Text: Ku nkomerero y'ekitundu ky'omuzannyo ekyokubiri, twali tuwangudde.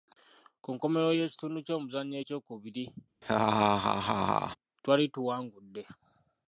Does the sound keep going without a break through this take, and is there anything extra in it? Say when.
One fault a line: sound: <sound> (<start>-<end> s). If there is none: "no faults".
sound: laugh (3.2-4.6 s)